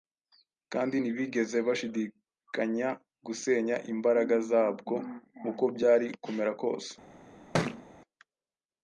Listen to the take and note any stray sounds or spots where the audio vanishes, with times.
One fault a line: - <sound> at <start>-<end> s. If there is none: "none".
- thud at 7.5-7.8 s